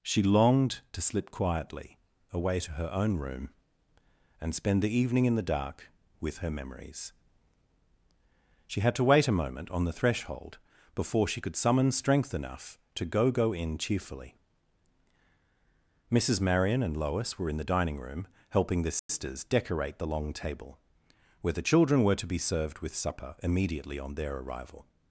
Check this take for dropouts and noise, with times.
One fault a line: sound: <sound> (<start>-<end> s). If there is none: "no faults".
sound: dropout (19.0-19.1 s)